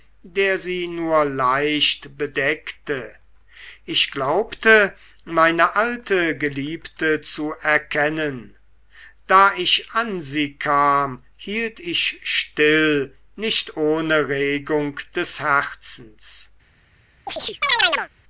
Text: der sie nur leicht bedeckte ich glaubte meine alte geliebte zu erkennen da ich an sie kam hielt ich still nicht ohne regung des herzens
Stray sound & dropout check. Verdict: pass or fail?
fail